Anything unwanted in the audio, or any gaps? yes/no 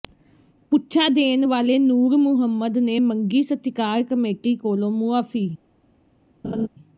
yes